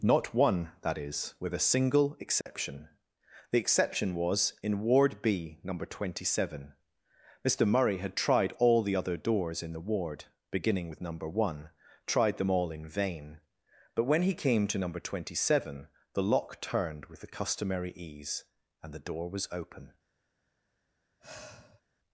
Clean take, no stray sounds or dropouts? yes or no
no